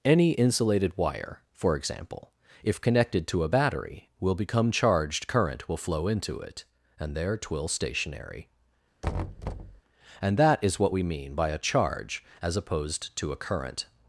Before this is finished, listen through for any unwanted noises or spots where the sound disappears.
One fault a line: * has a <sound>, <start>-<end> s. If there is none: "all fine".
* has a thud, 9.0-9.8 s